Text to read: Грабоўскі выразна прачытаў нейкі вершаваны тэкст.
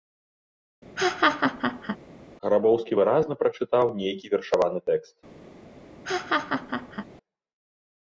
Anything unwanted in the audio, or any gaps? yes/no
yes